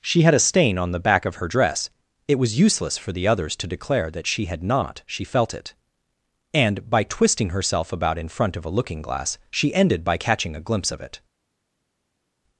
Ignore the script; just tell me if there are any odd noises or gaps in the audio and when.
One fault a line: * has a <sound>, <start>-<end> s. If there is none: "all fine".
all fine